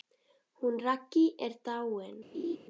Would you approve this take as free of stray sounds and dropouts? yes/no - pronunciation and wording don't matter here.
no